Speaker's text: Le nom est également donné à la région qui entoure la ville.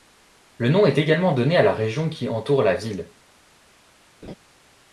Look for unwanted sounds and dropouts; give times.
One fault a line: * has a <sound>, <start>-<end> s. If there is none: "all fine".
* has a laugh, 4.2-4.3 s